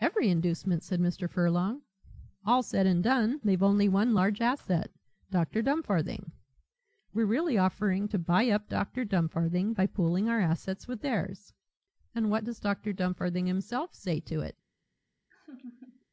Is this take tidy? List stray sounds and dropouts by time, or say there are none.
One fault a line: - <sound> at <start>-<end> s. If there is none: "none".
- laugh at 15.3-16.1 s